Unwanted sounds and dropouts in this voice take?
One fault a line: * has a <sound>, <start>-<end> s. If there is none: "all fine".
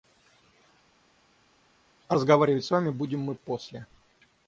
all fine